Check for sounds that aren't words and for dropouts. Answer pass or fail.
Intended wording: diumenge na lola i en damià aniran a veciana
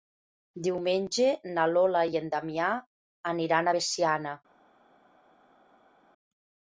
pass